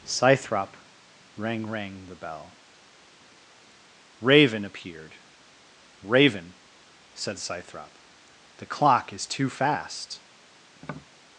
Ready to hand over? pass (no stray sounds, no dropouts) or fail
fail